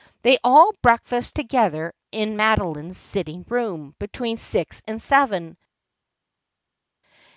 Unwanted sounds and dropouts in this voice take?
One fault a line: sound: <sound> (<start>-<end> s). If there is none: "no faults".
no faults